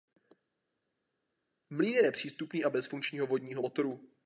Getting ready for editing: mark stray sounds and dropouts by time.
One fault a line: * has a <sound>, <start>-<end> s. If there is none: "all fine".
all fine